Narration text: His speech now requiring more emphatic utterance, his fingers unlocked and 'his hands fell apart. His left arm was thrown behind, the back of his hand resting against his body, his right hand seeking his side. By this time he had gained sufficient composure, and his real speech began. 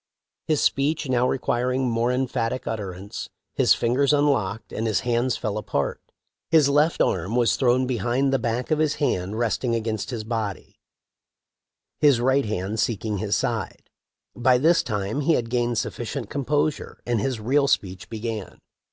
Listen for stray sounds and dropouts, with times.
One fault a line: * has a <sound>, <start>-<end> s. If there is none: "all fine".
all fine